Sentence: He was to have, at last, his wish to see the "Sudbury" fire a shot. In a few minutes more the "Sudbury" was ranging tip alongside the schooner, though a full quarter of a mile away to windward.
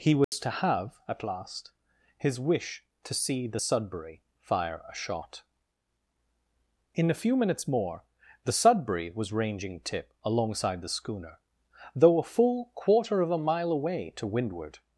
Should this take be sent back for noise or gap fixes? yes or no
yes